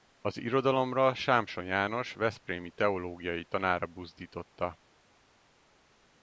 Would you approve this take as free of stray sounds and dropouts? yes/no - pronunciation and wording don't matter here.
yes